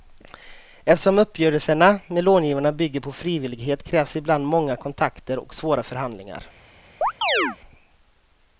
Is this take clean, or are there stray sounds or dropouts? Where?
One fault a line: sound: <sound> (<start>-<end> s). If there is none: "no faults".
sound: chirp (7.0-7.6 s)